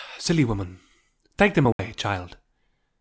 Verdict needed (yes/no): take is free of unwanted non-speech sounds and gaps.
no